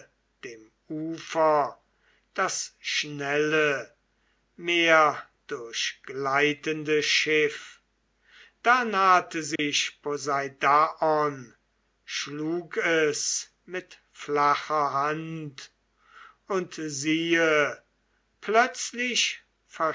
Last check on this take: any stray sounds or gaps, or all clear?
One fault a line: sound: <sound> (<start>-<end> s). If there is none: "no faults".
sound: dropout (9.6-9.6 s)